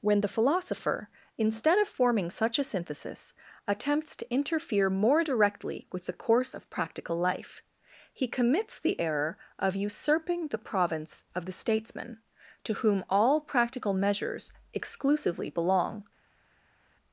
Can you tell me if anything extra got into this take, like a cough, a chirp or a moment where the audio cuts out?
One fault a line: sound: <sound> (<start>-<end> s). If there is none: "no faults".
no faults